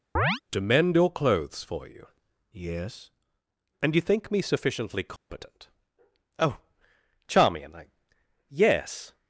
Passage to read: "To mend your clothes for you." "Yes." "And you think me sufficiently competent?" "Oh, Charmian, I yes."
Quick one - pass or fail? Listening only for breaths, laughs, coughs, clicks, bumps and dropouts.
fail